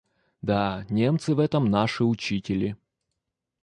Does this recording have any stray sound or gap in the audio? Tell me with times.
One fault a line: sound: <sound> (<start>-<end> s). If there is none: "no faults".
no faults